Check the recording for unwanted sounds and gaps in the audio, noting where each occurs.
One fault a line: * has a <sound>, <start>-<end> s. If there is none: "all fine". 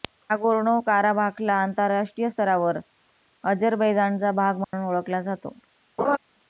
* has a dropout, 4.6-4.7 s
* has a laugh, 6.0-6.2 s